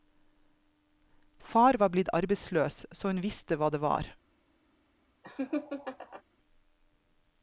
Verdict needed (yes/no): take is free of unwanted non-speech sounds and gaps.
no